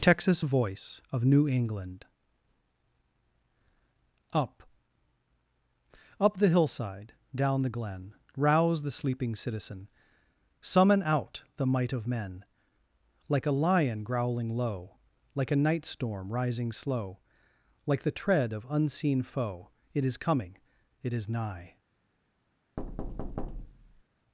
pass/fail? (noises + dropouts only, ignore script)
fail